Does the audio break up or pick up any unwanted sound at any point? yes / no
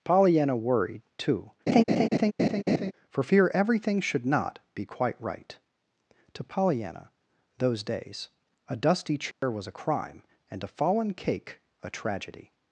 yes